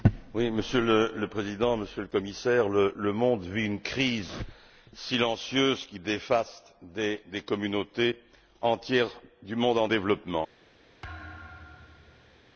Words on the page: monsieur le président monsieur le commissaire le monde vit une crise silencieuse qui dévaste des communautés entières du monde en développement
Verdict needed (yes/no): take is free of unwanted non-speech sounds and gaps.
no